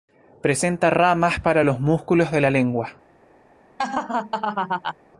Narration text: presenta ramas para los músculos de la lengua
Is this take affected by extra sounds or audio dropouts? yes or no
yes